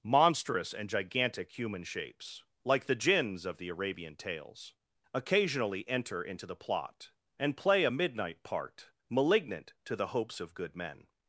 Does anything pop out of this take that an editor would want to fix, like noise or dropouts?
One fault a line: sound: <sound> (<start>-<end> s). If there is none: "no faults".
no faults